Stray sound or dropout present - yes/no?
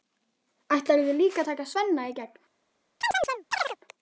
yes